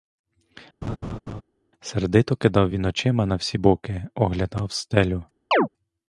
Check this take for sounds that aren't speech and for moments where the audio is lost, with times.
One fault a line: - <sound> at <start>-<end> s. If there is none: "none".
- laugh at 0.8-1.4 s
- chirp at 5.5-5.7 s